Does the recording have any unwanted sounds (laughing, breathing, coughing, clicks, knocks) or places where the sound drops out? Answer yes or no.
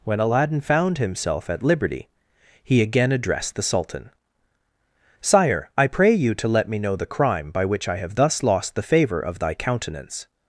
no